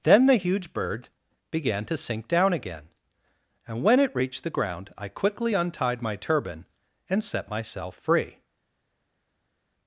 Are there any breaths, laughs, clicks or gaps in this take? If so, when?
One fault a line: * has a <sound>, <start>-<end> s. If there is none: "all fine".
all fine